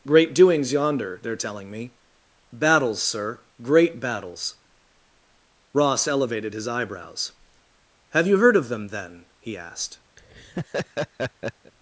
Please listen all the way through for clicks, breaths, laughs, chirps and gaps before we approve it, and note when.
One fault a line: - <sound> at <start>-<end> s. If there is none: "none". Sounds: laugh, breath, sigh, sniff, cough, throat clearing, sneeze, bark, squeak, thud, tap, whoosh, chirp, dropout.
- laugh at 10.2-11.7 s